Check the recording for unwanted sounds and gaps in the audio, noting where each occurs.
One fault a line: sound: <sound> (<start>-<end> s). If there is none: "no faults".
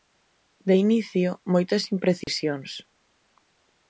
sound: dropout (2.2-2.3 s)